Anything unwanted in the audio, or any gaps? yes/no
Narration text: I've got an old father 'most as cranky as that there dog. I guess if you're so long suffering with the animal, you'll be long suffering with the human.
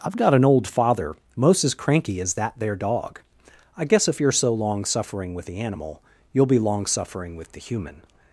no